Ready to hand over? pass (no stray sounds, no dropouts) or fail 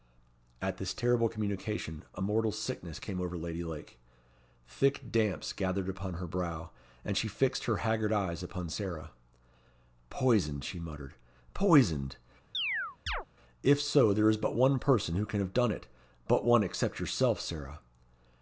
fail